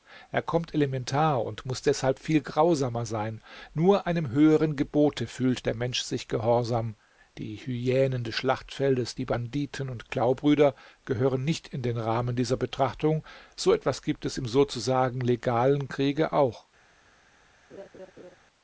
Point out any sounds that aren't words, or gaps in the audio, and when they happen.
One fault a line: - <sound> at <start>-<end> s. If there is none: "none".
- laugh at 17.7-18.4 s